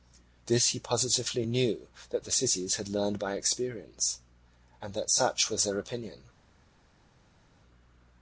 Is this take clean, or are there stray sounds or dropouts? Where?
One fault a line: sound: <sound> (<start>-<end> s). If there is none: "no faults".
no faults